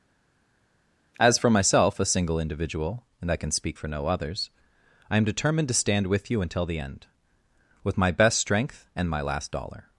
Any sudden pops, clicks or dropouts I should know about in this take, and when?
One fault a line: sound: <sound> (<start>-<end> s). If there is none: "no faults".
no faults